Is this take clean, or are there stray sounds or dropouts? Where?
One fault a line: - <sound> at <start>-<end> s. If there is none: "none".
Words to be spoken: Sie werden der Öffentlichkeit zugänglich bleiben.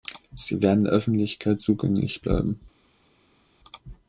none